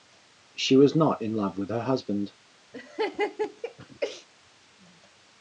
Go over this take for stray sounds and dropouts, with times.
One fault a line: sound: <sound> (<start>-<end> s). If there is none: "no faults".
sound: laugh (2.7-4.3 s)